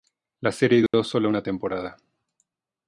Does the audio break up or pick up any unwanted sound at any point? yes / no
yes